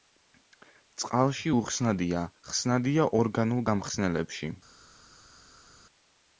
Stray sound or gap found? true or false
false